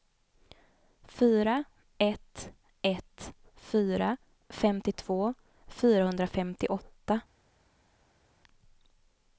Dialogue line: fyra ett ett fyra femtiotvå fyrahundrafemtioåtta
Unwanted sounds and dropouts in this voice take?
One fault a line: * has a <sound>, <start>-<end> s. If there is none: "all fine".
all fine